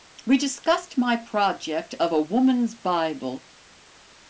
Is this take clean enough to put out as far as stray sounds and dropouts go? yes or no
yes